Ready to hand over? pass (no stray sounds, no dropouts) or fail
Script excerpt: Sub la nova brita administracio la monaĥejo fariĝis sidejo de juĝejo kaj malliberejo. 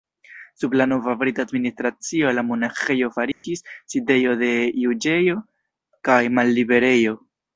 fail